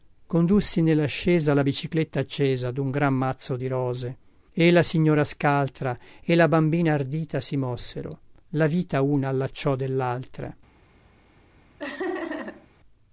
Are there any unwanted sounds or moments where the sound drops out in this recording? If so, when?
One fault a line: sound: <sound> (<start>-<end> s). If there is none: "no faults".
sound: laugh (11.8-12.7 s)